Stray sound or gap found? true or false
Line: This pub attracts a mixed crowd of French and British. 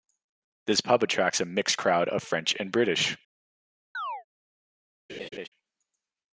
true